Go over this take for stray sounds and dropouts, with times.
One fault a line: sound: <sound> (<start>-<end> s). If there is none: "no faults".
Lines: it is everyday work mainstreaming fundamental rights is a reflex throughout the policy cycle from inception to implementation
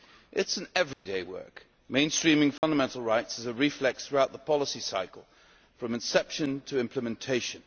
sound: dropout (0.9-1.1 s)
sound: dropout (2.6-2.6 s)